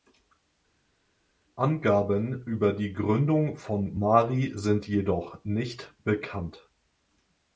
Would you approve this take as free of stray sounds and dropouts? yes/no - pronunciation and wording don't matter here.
yes